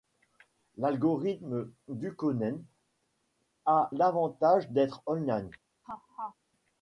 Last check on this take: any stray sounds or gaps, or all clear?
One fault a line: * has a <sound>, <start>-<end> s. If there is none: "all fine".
* has a laugh, 5.8-6.4 s